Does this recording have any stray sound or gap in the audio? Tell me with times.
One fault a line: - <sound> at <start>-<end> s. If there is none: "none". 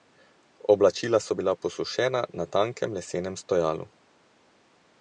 none